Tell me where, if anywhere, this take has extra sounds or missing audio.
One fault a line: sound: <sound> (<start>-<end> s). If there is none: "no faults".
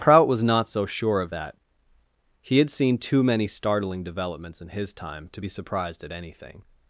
no faults